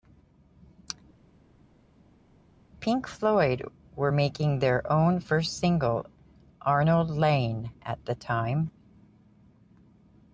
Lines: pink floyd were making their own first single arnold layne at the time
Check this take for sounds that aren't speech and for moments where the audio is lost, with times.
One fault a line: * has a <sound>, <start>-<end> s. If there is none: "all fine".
all fine